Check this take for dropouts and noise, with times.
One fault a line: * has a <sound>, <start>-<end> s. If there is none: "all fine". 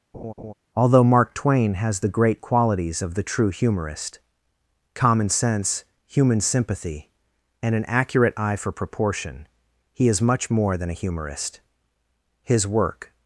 * has a laugh, 0.1-0.5 s